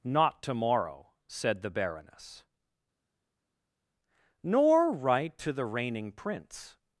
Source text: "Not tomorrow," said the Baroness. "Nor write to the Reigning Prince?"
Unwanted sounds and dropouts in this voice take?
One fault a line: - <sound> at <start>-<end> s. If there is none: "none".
none